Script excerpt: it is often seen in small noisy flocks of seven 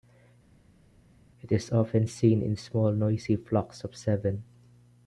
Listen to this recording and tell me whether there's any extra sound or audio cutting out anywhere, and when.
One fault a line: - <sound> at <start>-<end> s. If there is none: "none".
none